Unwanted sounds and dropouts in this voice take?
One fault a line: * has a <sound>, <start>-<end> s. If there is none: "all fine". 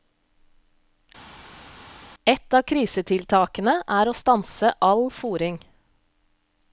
all fine